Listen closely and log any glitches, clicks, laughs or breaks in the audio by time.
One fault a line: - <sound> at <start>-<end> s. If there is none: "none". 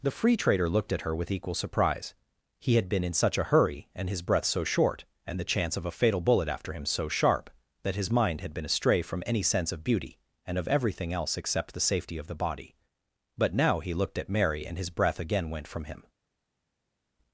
none